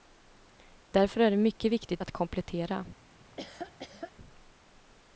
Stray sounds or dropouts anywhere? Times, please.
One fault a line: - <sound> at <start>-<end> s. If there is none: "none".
- laugh at 3.2-4.1 s